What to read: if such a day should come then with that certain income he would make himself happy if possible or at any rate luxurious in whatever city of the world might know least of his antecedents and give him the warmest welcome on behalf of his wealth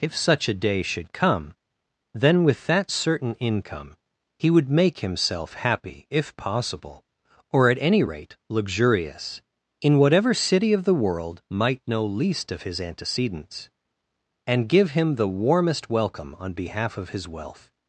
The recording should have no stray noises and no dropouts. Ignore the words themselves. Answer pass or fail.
pass